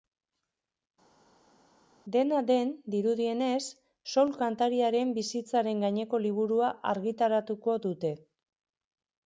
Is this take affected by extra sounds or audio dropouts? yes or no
no